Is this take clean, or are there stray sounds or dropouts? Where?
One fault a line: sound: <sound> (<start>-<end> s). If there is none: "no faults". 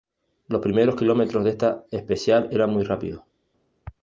no faults